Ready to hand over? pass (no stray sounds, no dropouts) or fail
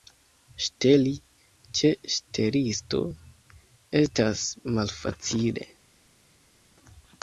pass